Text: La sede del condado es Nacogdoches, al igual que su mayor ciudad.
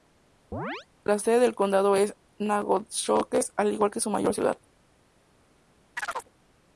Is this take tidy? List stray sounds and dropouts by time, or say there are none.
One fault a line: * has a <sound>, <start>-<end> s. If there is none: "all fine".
* has a chirp, 0.5-0.9 s
* has a chirp, 6.0-6.3 s